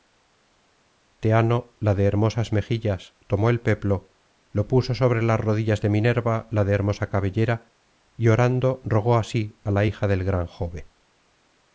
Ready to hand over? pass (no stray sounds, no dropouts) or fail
pass